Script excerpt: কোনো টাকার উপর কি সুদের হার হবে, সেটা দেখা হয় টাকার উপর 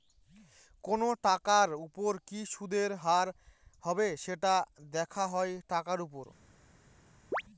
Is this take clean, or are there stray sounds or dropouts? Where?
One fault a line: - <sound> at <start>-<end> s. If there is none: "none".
- chirp at 7.3-7.4 s